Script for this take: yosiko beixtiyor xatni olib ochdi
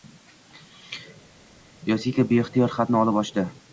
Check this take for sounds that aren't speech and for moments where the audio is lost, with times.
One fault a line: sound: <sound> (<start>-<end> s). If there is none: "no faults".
no faults